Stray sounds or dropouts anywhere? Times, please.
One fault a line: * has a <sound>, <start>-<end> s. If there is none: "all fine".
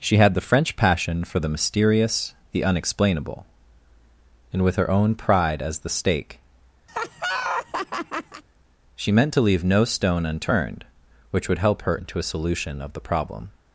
* has a laugh, 6.9-8.4 s